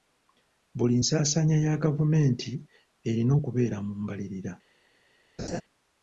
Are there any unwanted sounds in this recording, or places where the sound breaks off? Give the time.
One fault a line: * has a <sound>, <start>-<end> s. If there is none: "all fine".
* has a laugh, 5.4-5.6 s